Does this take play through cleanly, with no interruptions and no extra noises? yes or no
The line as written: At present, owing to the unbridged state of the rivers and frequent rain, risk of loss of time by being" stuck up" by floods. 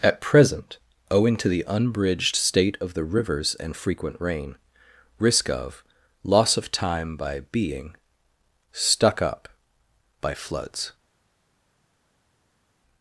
yes